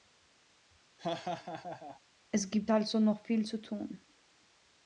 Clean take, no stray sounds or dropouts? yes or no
no